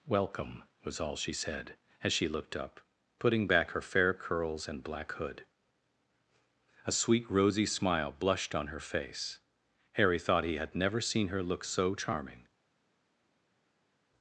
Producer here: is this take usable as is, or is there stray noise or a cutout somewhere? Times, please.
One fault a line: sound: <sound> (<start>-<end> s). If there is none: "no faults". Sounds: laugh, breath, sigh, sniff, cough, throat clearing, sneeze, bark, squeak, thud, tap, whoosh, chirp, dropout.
no faults